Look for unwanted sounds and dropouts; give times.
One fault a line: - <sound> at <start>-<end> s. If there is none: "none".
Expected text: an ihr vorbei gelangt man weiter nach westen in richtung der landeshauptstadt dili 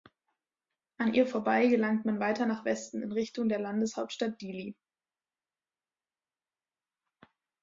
none